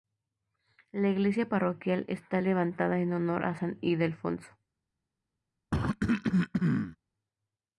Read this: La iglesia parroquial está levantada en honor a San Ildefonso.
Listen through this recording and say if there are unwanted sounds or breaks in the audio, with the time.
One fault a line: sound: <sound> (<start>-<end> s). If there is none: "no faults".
sound: cough (5.7-7.0 s)